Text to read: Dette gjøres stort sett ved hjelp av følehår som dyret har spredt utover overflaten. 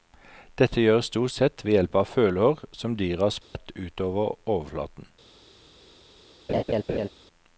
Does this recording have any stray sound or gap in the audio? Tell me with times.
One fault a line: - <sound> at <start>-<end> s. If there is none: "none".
- dropout at 3.4-3.6 s
- laugh at 6.5-7.1 s